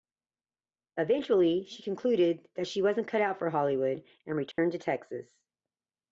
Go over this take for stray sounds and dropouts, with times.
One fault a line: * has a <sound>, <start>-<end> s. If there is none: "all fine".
* has a dropout, 4.5-4.6 s